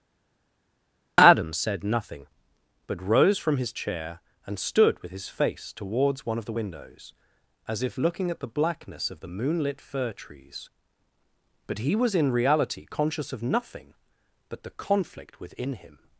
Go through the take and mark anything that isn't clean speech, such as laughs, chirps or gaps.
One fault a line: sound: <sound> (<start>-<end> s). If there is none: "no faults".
no faults